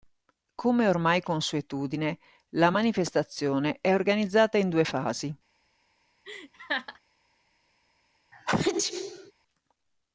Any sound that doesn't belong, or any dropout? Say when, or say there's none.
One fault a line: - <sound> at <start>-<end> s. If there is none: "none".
- laugh at 6.2-7.0 s
- sneeze at 8.3-9.3 s